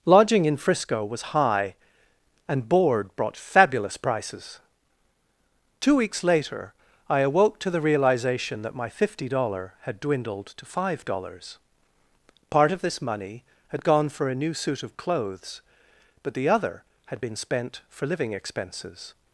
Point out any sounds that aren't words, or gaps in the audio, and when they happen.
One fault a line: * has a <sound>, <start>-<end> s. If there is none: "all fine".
all fine